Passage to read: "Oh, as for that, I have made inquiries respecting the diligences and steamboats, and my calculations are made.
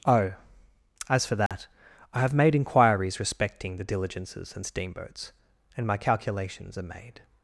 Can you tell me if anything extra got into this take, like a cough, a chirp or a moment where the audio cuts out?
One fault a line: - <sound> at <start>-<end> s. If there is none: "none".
- dropout at 1.5-1.5 s